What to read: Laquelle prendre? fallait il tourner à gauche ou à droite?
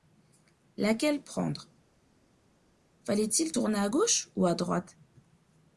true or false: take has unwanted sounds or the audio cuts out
false